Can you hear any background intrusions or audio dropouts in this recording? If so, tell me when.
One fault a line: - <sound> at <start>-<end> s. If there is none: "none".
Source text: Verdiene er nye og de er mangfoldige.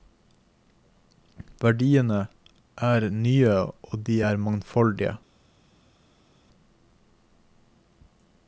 none